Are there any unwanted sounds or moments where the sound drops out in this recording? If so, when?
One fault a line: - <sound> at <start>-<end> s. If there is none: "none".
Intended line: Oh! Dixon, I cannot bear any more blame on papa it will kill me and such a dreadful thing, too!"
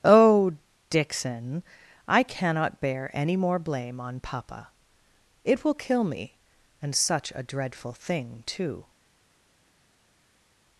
none